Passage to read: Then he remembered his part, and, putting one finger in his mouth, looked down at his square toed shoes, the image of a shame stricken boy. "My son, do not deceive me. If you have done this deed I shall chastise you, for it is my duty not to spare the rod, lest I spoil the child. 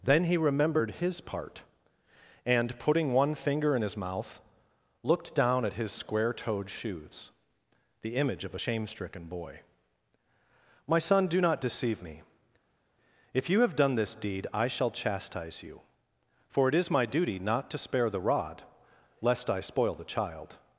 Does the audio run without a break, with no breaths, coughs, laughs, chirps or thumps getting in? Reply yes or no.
yes